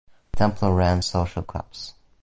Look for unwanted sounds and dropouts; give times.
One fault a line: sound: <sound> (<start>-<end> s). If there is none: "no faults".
no faults